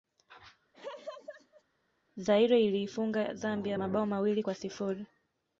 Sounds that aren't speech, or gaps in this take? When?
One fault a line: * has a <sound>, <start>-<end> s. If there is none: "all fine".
* has a laugh, 0.7-1.6 s